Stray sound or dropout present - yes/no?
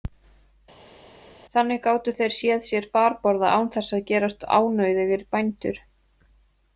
no